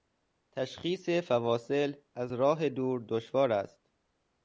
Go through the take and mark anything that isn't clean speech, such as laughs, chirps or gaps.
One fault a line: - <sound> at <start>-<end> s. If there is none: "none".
none